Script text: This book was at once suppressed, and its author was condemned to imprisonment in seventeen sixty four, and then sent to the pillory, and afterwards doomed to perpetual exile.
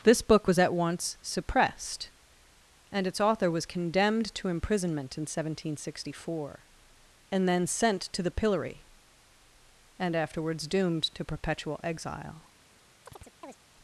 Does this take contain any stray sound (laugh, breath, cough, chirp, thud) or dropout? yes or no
yes